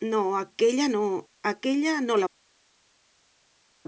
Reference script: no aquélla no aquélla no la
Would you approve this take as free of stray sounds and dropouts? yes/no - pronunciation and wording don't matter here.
yes